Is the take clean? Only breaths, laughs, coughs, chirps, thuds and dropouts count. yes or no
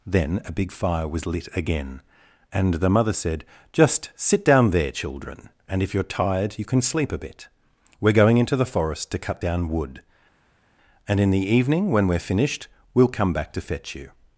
yes